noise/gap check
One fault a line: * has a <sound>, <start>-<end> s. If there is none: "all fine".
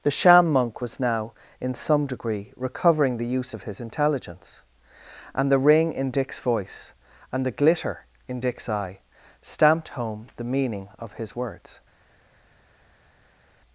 all fine